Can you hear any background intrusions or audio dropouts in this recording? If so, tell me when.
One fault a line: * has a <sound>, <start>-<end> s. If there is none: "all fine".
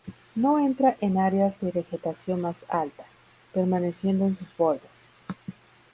all fine